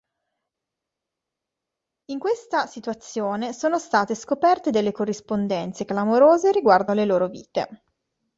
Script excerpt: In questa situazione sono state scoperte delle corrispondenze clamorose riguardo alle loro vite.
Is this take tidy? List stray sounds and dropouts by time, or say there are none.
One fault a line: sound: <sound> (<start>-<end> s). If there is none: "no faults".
no faults